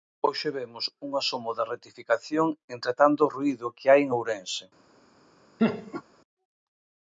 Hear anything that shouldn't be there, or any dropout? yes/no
yes